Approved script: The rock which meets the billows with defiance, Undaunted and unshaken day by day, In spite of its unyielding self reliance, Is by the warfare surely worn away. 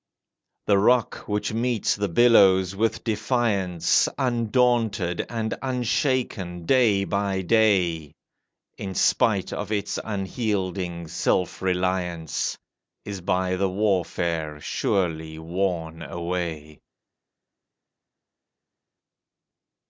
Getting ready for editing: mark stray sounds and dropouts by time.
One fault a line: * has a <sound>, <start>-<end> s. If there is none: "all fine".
all fine